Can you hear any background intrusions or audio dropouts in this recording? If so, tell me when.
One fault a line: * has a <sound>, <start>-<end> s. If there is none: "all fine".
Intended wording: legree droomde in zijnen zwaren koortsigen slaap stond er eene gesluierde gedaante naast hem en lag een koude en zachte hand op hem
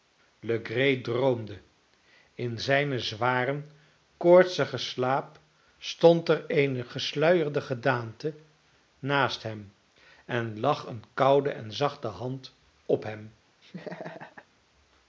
* has a laugh, 13.6-14.5 s